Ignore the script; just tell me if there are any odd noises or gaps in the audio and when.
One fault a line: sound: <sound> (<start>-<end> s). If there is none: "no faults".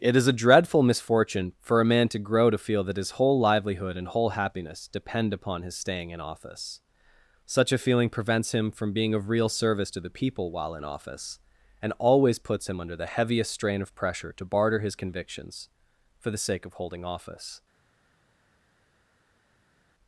no faults